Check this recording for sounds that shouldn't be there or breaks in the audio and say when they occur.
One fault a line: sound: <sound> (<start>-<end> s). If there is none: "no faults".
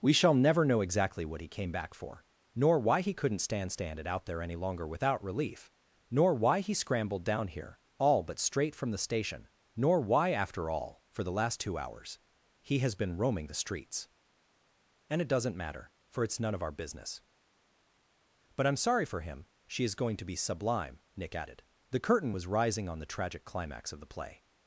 no faults